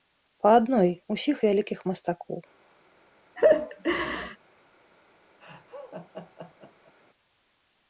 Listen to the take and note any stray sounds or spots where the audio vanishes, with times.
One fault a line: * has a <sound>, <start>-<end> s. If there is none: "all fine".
* has a laugh, 3.4-4.4 s
* has a laugh, 5.4-6.9 s